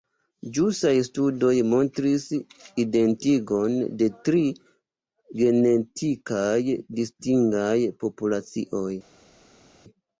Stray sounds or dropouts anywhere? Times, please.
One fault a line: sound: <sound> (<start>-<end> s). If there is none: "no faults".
no faults